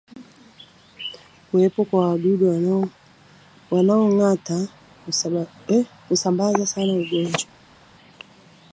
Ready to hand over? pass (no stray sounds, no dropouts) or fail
pass